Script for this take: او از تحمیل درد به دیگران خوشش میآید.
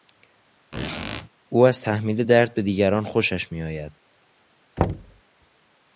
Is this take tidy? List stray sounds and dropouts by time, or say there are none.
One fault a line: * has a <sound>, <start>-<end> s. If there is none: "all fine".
* has a squeak, 0.7-1.3 s
* has a thud, 4.8-5.2 s